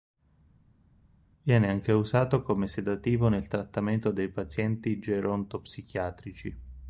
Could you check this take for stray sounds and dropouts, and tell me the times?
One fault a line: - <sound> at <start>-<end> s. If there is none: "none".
none